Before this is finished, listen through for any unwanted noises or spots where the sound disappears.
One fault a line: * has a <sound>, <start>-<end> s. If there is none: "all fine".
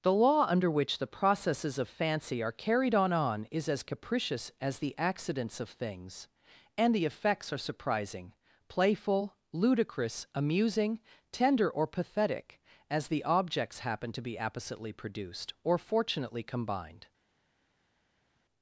all fine